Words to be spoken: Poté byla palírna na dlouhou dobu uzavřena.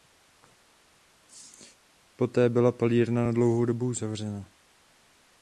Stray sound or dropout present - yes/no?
no